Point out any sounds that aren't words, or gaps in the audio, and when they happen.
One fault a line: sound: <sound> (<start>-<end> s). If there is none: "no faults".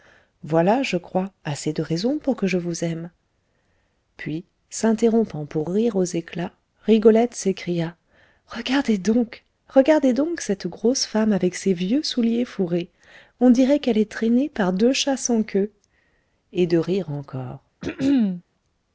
sound: throat clearing (17.8-18.4 s)